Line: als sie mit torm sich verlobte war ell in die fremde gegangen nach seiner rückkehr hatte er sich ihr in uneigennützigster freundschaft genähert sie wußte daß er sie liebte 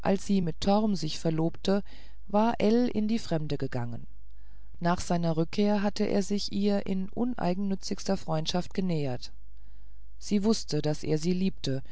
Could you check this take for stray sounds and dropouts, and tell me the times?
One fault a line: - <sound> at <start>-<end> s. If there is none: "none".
none